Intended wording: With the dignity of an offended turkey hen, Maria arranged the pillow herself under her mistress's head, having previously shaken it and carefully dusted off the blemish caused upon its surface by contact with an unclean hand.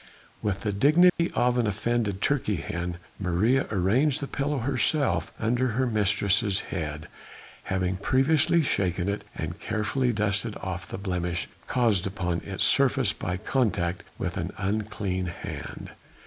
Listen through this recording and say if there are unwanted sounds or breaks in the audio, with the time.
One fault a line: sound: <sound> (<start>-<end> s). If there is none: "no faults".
sound: dropout (1.1-1.2 s)